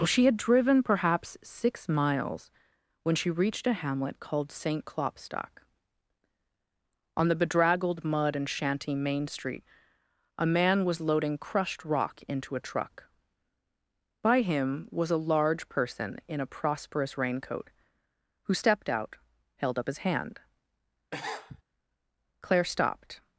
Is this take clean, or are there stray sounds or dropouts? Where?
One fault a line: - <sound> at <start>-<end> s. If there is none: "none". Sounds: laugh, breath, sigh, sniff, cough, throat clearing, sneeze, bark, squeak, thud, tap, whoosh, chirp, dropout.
- sniff at 21.1-21.6 s